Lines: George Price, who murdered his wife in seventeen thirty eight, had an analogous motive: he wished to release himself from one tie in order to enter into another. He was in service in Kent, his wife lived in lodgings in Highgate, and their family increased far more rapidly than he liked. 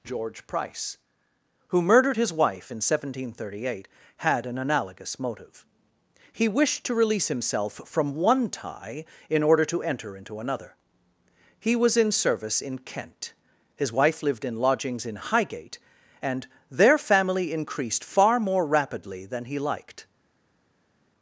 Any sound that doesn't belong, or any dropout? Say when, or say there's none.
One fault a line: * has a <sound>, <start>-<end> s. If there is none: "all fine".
all fine